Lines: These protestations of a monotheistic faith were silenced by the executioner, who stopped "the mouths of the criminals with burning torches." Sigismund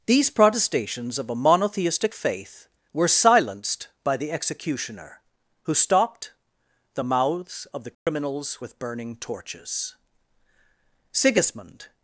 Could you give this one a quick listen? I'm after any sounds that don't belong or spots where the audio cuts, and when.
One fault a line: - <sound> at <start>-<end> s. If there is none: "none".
- dropout at 7.9-8.1 s